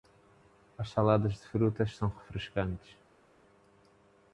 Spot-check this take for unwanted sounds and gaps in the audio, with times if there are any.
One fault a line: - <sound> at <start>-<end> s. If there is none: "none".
none